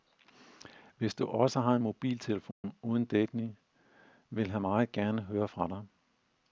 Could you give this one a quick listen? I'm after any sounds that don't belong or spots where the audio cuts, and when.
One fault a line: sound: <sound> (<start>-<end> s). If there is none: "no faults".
sound: dropout (2.5-2.6 s)